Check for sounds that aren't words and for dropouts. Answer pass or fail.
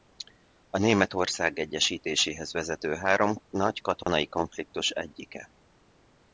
fail